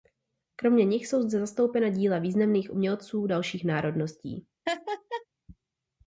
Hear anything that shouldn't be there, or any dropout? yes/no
yes